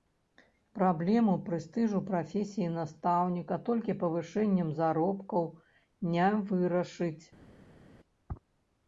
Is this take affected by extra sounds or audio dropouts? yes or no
no